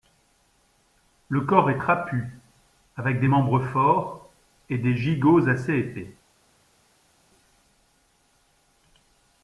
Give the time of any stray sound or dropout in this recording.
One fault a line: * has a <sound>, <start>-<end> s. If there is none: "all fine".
all fine